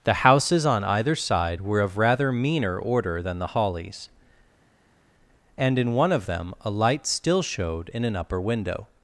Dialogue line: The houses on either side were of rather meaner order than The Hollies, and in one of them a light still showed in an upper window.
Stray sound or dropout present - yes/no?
no